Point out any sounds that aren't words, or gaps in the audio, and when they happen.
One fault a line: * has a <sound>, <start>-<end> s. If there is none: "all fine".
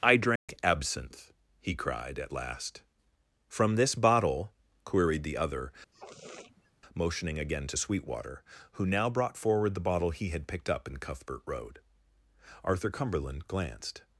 * has a dropout, 0.4-0.5 s
* has a sniff, 5.9-6.7 s